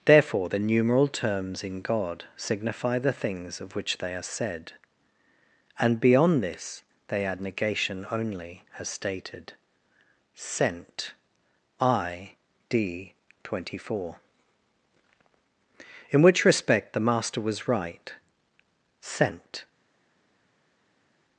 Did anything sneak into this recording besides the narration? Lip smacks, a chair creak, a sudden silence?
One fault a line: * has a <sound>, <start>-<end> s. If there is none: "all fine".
all fine